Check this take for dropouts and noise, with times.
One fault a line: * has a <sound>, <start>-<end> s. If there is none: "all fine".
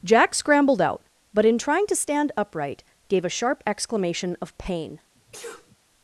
* has a sneeze, 5.2-5.8 s